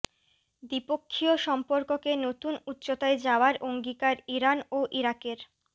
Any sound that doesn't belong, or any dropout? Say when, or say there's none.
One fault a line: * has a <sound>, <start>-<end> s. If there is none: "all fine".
all fine